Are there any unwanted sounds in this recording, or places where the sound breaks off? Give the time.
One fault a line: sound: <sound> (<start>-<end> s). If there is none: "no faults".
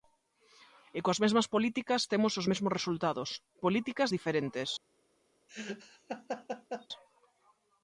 sound: laugh (5.5-6.9 s)